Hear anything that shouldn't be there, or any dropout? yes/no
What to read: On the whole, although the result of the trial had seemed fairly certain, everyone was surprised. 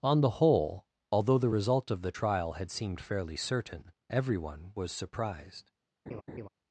yes